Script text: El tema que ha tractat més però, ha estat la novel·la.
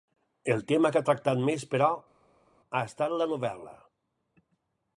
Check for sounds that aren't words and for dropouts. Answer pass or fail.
pass